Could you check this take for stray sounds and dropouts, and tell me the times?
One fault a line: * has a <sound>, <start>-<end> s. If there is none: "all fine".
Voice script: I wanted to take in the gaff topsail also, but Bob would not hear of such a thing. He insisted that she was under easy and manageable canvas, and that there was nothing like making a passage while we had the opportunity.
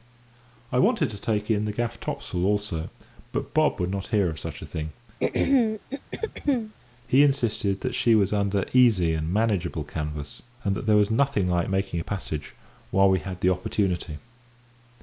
* has a throat clearing, 5.2-6.8 s